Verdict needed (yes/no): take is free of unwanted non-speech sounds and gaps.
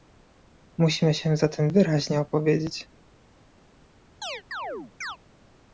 no